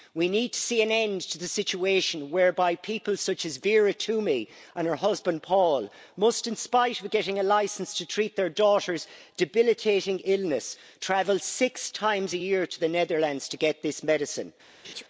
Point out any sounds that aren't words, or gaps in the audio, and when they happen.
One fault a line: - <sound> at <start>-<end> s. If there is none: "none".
- laugh at 14.8-15.0 s